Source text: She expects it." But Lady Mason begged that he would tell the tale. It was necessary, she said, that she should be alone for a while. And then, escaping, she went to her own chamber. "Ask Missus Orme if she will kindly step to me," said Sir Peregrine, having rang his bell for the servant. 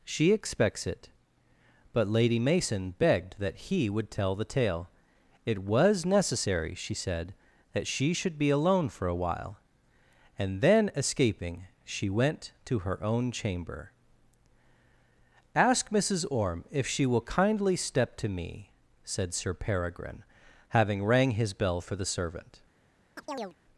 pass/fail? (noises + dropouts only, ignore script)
fail